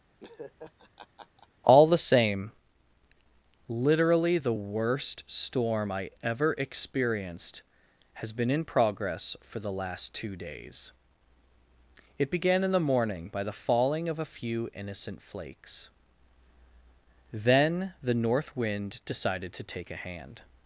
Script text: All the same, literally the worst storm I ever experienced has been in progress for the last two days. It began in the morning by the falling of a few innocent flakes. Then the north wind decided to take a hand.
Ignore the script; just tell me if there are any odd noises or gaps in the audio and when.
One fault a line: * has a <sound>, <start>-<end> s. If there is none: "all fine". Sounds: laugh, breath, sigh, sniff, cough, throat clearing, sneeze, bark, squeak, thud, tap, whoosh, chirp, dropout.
* has a laugh, 0.2-1.5 s